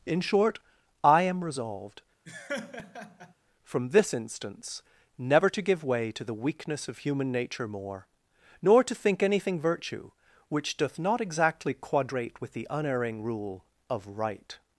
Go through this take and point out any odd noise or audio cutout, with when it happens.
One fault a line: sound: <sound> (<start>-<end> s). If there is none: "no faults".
sound: laugh (2.3-3.3 s)